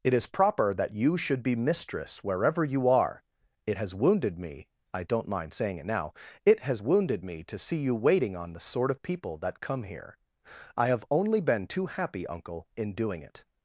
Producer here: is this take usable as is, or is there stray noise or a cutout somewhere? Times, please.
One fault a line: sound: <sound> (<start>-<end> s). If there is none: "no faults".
no faults